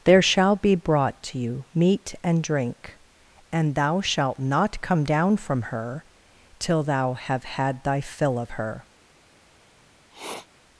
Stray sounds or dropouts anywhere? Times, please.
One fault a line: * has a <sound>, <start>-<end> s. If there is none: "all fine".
* has a sniff, 10.1-10.5 s